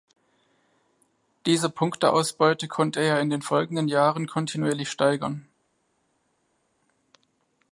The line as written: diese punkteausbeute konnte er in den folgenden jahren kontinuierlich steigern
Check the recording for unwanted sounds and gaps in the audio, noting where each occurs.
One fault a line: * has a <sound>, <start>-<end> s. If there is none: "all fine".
all fine